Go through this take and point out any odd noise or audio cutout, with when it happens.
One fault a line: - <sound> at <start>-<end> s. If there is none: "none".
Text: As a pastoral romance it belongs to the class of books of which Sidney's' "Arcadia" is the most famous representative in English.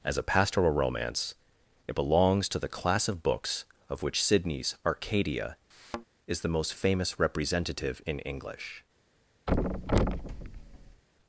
- thud at 5.7-6.1 s
- thud at 9.5-11.0 s